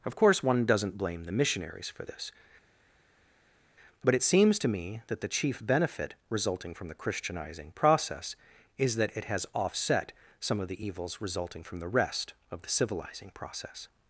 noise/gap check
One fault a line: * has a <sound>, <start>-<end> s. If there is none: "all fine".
all fine